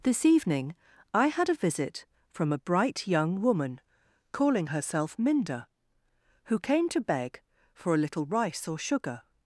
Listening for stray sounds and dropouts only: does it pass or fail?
pass